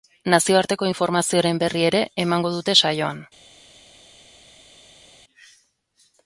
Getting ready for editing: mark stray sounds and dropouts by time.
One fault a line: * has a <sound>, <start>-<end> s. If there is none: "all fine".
all fine